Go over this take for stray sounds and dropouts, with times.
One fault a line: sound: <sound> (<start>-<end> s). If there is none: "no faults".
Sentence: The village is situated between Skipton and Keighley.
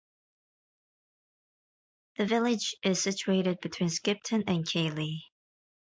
no faults